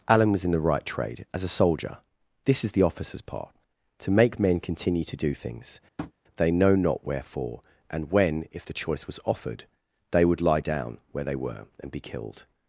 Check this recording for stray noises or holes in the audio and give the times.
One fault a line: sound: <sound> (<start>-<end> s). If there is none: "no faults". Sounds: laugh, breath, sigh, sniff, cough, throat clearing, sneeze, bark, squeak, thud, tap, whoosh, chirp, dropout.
sound: tap (6.0-6.1 s)